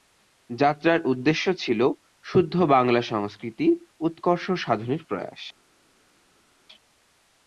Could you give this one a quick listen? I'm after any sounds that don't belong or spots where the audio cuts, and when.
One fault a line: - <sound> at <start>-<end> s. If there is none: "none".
none